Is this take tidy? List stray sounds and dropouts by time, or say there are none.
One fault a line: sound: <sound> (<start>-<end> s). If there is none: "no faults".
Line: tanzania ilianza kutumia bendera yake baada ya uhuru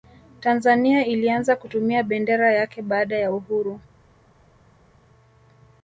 no faults